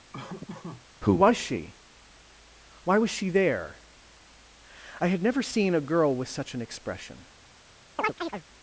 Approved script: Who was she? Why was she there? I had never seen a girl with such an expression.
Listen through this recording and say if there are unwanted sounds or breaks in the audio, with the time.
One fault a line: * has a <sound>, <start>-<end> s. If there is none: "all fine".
* has a laugh, 0.1-0.9 s
* has a chirp, 8.0-8.4 s